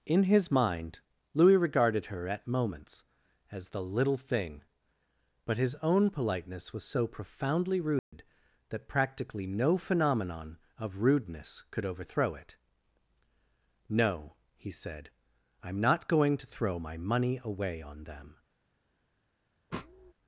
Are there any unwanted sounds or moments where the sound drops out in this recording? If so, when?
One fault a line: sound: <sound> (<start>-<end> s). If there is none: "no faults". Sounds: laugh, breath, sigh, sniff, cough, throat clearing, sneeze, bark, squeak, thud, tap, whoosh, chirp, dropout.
sound: dropout (8.0-8.1 s)
sound: sniff (19.7-20.1 s)